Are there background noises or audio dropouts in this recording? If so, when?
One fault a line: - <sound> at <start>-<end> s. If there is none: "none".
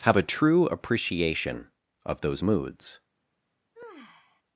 - sigh at 3.7-4.4 s